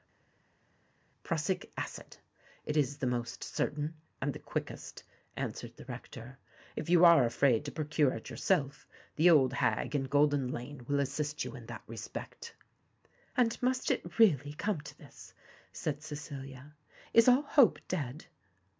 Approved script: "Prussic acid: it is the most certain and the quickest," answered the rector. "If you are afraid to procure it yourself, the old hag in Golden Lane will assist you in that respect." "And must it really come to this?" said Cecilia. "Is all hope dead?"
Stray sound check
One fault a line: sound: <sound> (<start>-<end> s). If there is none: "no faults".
no faults